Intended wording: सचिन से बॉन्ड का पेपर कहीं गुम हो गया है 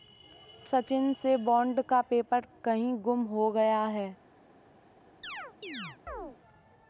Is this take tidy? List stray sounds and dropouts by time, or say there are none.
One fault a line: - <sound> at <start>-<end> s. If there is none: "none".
- chirp at 5.2-6.4 s